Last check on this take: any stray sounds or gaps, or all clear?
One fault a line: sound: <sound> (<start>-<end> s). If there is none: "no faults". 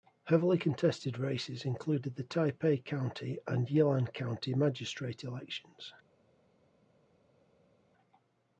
no faults